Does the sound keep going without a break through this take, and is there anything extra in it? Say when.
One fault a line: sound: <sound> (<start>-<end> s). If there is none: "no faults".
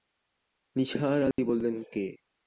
sound: dropout (1.3-1.4 s)